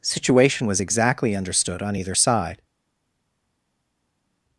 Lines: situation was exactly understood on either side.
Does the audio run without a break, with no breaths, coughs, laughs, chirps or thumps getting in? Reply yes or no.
yes